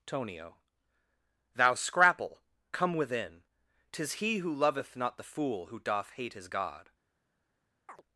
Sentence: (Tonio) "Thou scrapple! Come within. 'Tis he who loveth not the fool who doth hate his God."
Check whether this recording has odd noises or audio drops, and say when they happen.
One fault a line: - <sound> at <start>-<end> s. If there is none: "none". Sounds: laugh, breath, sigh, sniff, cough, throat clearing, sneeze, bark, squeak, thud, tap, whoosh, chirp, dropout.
- chirp at 7.9-8.0 s